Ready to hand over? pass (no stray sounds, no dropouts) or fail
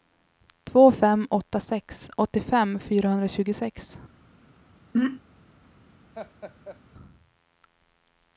fail